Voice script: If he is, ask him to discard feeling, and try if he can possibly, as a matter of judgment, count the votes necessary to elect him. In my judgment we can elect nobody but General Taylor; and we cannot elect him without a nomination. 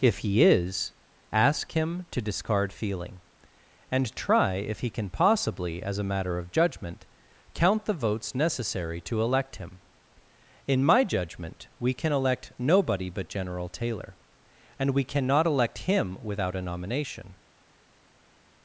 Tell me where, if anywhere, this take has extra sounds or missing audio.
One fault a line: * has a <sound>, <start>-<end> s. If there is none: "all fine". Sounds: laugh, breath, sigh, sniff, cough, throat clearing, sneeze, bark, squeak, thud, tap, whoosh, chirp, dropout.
all fine